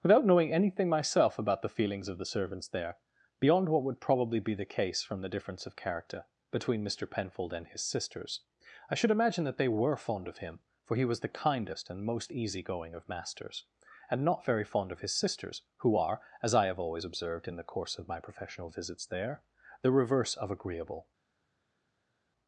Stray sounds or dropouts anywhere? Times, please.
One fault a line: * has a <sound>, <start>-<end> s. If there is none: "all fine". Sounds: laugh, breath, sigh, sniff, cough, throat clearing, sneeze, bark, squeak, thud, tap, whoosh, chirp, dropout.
all fine